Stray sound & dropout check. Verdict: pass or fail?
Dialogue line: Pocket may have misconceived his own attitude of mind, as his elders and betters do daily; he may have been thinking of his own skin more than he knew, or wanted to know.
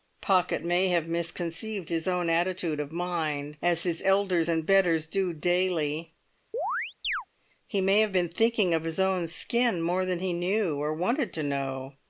fail